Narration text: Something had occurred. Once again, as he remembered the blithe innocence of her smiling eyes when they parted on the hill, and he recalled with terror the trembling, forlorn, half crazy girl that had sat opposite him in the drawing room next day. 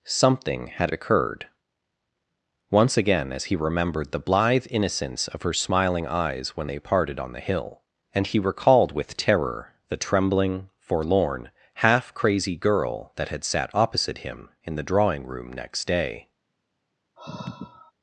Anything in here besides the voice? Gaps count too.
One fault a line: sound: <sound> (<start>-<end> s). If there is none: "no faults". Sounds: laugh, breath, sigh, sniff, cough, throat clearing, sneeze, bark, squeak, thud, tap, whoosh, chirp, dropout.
sound: sigh (17.2-17.9 s)